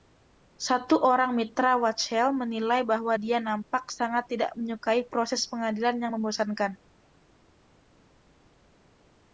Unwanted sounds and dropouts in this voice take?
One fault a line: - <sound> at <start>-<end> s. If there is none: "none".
none